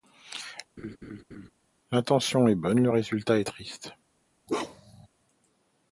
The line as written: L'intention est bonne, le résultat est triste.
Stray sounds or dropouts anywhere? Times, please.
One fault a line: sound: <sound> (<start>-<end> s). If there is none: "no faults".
sound: laugh (0.8-1.5 s)
sound: bark (4.5-5.1 s)